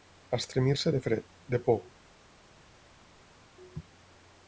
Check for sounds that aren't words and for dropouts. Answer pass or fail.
pass